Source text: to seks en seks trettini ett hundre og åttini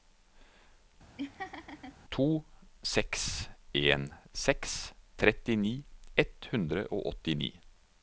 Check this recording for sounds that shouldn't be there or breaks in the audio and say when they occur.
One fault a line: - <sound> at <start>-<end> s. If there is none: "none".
- laugh at 1.2-2.0 s